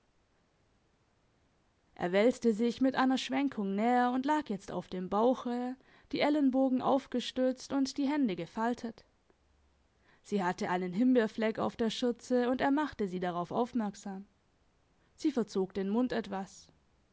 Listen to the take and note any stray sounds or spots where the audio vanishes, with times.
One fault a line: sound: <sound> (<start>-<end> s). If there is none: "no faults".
no faults